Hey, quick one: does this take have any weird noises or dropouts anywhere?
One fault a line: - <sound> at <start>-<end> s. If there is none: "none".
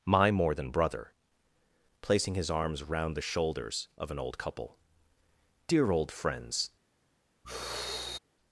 - sigh at 7.4-8.2 s